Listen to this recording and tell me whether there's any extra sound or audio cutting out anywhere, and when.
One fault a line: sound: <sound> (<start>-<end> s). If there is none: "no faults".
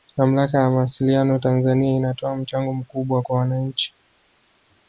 no faults